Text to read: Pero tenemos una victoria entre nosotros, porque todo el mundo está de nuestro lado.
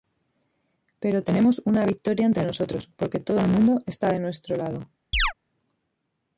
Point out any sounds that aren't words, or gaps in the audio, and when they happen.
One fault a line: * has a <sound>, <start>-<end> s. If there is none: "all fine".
* has a chirp, 5.1-5.3 s